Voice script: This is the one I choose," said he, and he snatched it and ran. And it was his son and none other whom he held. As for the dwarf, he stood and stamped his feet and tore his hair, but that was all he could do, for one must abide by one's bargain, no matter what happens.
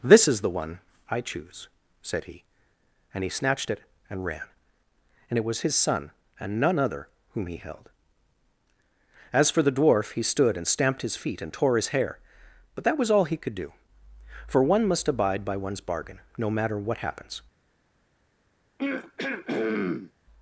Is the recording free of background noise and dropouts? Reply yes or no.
no